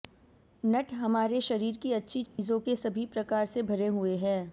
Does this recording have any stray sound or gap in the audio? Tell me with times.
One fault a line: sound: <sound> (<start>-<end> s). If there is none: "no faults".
sound: dropout (2.3-2.4 s)